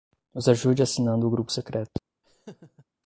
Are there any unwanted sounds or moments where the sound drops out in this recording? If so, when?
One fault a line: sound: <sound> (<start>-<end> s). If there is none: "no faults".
sound: laugh (2.2-2.9 s)